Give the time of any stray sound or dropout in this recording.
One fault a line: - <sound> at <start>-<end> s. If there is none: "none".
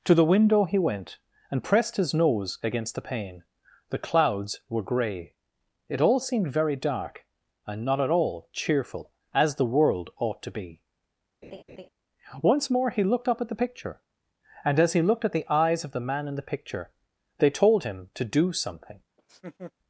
- laugh at 11.4-11.9 s
- laugh at 19.2-19.7 s